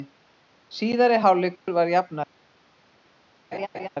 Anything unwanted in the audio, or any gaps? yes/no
yes